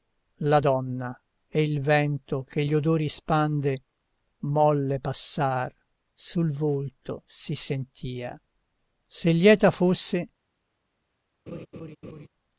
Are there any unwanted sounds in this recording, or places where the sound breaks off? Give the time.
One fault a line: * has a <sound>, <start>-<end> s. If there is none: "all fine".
* has a laugh, 11.5-12.3 s